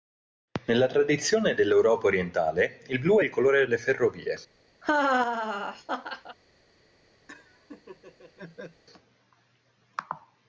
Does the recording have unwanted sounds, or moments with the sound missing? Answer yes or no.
yes